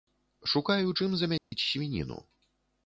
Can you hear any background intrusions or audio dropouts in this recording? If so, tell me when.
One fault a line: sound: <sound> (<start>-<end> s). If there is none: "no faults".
sound: dropout (1.4-1.5 s)